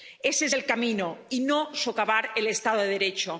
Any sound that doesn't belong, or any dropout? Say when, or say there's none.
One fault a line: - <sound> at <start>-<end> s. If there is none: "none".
none